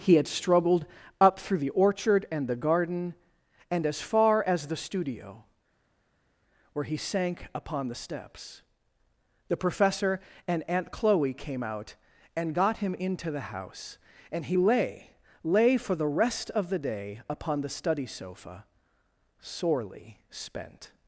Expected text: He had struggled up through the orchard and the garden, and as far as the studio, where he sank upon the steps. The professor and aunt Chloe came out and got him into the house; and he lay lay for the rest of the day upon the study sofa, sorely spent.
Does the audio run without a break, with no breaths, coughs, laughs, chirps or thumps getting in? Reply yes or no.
yes